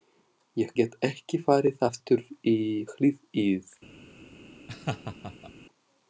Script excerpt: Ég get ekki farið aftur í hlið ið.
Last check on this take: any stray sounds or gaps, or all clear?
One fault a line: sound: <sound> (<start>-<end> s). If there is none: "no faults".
sound: laugh (4.7-5.5 s)